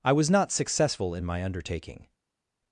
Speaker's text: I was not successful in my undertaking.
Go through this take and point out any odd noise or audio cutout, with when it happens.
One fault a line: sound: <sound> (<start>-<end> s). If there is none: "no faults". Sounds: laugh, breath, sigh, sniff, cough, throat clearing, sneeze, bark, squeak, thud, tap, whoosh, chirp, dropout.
no faults